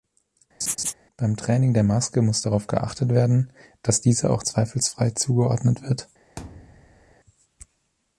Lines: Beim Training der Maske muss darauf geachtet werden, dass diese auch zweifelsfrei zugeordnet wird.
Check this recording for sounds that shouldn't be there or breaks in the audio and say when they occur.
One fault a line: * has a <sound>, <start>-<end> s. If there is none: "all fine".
* has a laugh, 0.6-0.9 s
* has a thud, 6.4-7.2 s